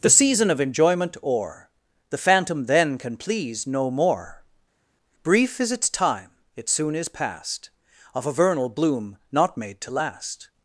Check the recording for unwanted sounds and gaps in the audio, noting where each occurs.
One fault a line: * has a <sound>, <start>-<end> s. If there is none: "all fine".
all fine